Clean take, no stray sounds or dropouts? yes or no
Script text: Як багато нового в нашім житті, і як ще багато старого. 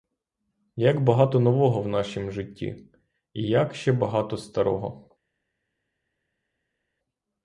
yes